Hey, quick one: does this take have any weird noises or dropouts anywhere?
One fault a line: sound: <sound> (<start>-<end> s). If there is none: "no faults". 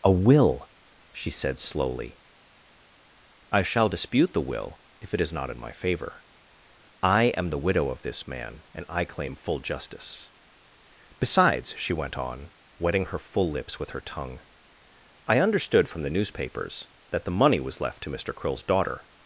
no faults